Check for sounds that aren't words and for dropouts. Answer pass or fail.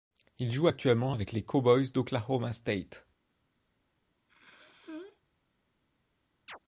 fail